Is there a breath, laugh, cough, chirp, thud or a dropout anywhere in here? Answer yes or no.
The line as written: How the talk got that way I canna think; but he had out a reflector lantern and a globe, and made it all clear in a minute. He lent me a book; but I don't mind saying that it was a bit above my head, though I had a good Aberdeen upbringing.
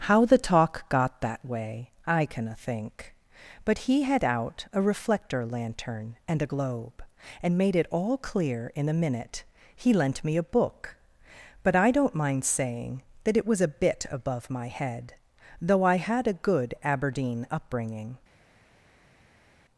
no